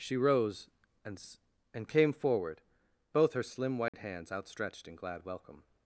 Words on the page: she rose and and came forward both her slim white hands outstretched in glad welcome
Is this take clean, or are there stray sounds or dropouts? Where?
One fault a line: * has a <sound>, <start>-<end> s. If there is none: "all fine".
* has a dropout, 3.9-3.9 s